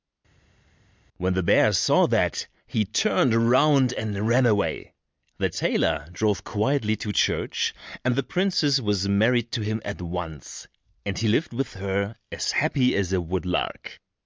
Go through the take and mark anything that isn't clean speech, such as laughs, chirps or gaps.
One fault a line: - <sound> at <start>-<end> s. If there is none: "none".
none